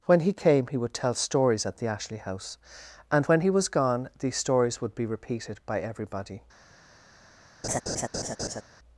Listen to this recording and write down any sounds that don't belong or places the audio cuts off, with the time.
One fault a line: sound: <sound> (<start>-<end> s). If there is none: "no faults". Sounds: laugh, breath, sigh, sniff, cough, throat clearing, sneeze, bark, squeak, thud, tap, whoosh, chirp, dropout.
sound: laugh (7.6-8.6 s)